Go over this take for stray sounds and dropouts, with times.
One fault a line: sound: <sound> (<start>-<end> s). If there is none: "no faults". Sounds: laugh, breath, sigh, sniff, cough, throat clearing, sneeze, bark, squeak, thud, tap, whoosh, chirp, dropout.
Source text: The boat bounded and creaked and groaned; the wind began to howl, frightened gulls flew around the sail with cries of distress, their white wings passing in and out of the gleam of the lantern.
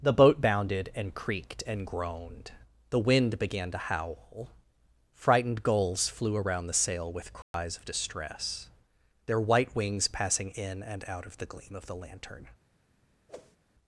sound: dropout (7.4-7.5 s)
sound: whoosh (13.3-13.6 s)